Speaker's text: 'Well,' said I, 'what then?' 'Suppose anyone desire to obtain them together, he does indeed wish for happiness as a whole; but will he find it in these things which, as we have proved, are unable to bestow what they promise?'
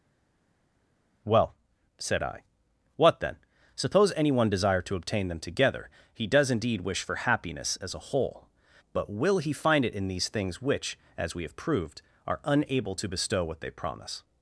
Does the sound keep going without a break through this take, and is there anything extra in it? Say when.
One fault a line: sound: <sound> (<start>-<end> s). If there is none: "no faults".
no faults